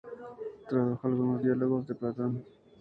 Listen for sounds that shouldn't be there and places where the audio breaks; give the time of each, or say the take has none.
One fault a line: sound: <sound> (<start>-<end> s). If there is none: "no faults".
no faults